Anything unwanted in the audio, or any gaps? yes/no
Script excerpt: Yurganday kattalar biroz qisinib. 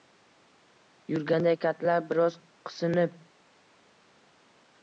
no